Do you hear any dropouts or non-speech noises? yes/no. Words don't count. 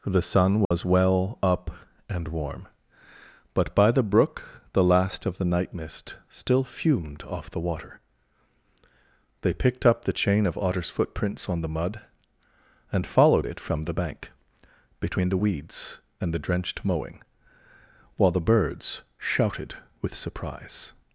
yes